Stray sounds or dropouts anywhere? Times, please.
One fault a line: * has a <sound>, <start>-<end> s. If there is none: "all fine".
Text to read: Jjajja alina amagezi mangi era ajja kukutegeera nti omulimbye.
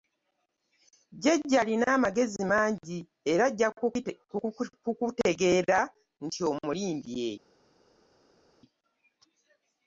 all fine